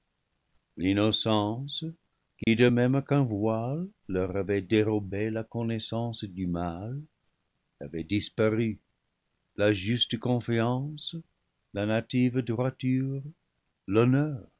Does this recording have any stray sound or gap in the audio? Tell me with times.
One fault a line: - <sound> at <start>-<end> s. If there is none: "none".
- dropout at 2.4-2.5 s